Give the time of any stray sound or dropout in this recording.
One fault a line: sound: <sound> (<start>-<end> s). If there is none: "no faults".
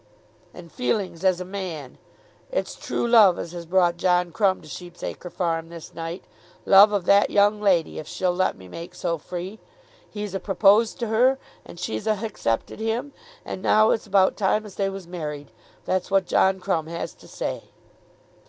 no faults